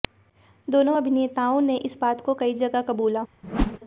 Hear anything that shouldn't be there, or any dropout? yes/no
yes